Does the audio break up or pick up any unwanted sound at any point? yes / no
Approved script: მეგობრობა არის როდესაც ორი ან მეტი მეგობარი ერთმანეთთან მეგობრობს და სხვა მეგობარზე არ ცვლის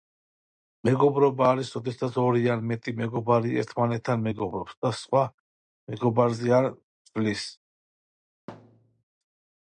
yes